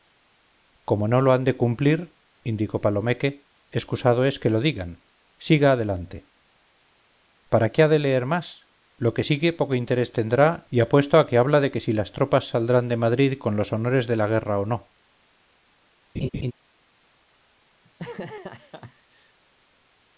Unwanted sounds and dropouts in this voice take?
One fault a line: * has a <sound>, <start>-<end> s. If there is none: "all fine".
* has a laugh, 16.1-16.5 s
* has a laugh, 17.8-19.4 s